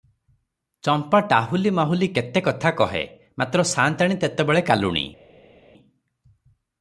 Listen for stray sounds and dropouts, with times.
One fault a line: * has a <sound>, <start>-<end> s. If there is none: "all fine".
all fine